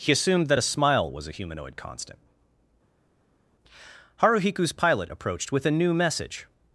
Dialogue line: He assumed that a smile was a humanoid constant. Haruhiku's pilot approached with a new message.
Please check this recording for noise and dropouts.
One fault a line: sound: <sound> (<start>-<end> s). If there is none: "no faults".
no faults